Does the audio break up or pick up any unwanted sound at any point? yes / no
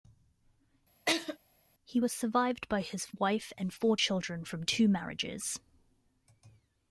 yes